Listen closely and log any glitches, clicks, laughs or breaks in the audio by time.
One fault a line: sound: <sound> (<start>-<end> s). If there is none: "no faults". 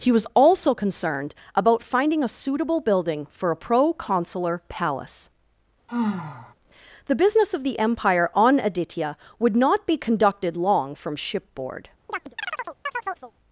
sound: sigh (5.9-6.5 s)
sound: chirp (12.1-13.3 s)